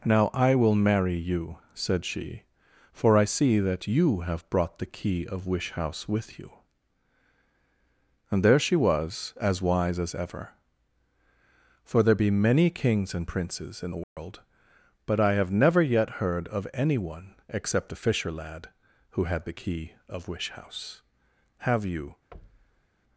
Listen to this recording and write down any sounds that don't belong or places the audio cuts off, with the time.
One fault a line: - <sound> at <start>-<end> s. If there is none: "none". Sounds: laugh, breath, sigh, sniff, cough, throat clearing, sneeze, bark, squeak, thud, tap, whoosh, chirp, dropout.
- dropout at 14.0-14.2 s
- thud at 22.3-22.9 s